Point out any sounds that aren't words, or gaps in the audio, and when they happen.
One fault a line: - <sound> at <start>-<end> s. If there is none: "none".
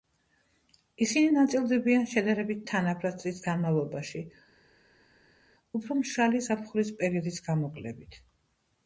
none